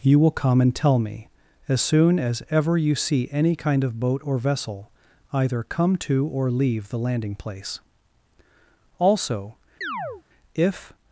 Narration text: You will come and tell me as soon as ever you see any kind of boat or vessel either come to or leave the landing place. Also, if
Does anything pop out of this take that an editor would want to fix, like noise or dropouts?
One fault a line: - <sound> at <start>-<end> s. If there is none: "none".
- chirp at 9.8-10.2 s